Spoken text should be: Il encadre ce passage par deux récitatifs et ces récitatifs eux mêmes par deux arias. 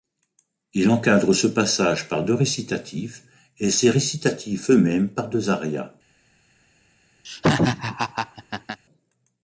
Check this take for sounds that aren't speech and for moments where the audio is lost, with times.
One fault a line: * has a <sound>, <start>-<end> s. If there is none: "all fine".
* has a laugh, 7.2-8.8 s